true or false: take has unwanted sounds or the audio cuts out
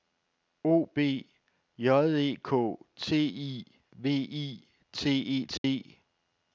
true